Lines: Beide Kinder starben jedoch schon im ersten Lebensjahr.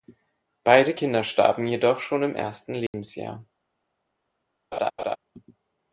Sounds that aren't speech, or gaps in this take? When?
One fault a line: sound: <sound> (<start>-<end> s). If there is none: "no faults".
sound: dropout (2.9-2.9 s)
sound: laugh (4.7-5.2 s)